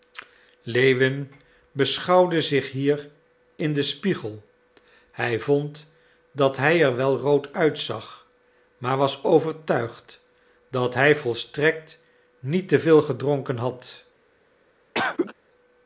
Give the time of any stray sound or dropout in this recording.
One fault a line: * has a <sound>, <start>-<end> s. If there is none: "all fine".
* has a cough, 14.9-15.3 s